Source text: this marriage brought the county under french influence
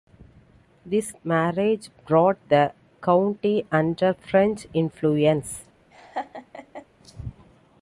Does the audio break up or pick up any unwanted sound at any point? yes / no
yes